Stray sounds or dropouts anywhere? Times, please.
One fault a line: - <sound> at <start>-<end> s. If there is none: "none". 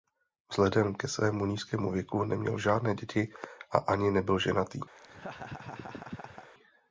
- laugh at 5.0-6.5 s